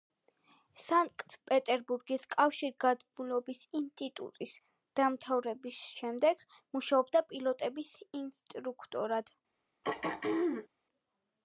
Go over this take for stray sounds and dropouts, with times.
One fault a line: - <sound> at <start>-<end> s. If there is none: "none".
- throat clearing at 9.8-10.7 s